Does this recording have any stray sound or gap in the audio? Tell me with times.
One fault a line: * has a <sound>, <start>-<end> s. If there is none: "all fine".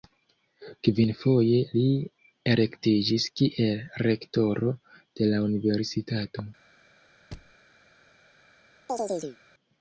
* has a thud, 7.3-7.6 s
* has a chirp, 8.9-9.4 s